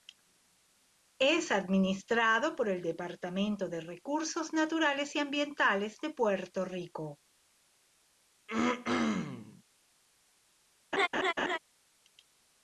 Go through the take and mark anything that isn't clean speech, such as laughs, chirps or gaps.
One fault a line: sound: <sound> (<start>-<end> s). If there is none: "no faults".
sound: throat clearing (8.5-9.6 s)
sound: laugh (10.9-11.6 s)